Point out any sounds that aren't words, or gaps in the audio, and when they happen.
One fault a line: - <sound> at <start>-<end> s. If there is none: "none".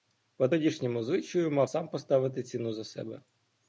none